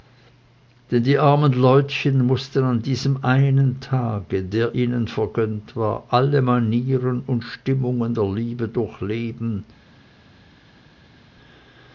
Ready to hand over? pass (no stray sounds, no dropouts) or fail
pass